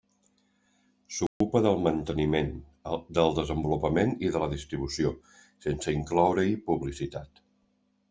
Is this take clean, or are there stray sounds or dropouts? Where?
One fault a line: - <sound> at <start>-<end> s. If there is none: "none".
- dropout at 1.3-1.4 s